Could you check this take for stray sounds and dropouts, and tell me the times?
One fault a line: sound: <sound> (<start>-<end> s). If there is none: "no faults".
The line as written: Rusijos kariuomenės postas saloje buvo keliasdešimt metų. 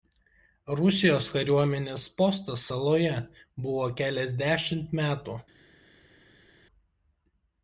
no faults